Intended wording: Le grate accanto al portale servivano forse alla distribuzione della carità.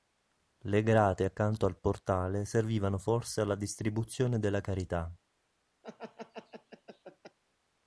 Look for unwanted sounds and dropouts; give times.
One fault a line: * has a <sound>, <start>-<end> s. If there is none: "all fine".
* has a laugh, 5.8-7.4 s